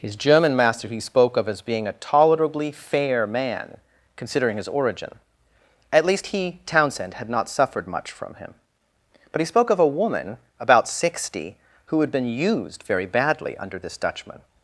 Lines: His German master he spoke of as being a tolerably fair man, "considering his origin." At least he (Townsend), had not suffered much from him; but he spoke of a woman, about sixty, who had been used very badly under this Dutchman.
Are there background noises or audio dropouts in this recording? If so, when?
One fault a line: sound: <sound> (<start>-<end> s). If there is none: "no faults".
no faults